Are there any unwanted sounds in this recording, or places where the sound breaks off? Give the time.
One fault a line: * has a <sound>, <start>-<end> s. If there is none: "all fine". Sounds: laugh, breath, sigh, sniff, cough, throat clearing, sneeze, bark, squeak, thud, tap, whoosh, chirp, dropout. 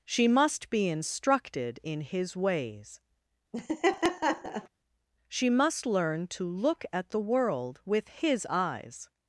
* has a laugh, 3.5-4.7 s